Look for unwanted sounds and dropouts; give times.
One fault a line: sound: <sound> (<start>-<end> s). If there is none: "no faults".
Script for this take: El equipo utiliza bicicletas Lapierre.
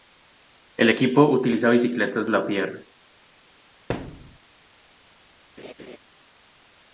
sound: thud (3.9-4.4 s)
sound: laugh (5.6-6.0 s)